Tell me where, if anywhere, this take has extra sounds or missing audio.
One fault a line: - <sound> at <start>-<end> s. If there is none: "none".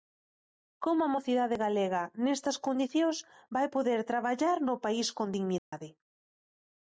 - dropout at 5.6-5.7 s